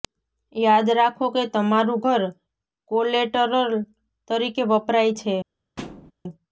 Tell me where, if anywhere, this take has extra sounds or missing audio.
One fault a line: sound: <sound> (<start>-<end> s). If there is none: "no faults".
sound: thud (5.8-6.1 s)